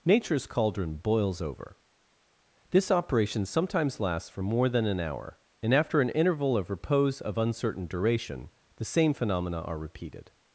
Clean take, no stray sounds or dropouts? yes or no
yes